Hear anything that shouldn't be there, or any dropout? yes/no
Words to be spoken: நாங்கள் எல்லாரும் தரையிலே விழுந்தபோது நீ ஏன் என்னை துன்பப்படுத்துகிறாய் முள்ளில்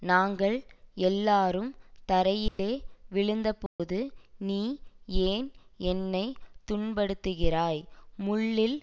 yes